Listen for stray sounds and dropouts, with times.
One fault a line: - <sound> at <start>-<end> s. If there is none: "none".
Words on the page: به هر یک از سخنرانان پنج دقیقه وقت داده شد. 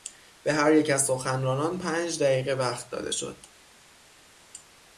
none